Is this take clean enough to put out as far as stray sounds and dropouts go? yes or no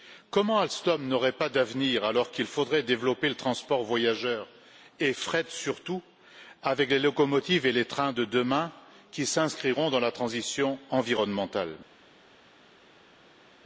yes